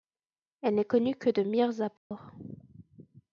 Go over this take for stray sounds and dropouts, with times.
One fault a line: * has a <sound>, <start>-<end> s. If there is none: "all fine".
* has a dropout, 2.0-2.1 s